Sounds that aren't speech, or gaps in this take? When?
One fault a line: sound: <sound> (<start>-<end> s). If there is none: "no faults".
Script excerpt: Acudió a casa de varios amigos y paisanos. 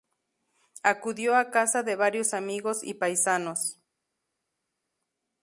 no faults